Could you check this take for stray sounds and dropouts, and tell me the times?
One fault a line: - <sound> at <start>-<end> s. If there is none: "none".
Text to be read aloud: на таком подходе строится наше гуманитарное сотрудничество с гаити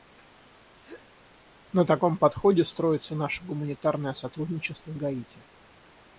- sneeze at 0.8-1.2 s